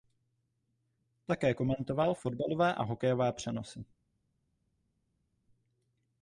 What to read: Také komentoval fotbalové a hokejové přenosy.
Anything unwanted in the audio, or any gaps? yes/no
no